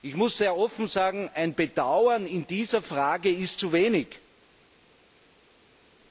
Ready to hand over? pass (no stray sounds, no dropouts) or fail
pass